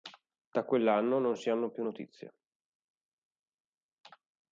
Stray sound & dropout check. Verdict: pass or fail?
pass